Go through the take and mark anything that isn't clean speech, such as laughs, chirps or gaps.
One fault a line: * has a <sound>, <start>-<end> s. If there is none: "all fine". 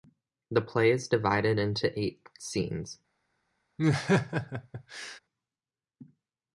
* has a laugh, 3.8-5.2 s